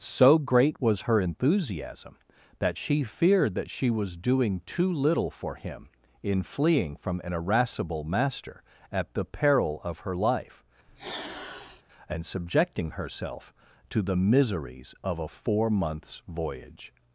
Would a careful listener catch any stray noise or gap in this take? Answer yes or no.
yes